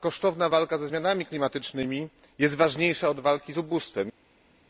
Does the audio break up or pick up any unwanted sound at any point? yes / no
no